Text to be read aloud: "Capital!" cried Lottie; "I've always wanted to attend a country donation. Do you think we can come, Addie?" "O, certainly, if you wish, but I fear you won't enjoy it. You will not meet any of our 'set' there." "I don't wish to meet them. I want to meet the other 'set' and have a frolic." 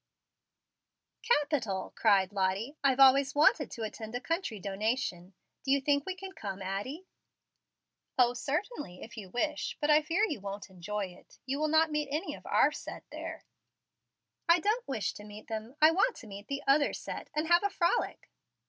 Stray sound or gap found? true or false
false